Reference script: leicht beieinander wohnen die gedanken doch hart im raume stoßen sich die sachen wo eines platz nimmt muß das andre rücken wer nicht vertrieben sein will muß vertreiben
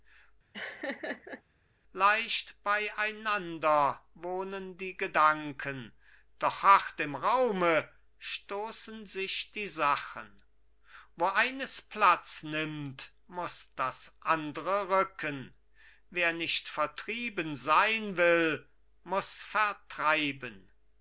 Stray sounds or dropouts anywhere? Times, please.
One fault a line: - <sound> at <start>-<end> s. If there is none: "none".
- laugh at 0.5-1.4 s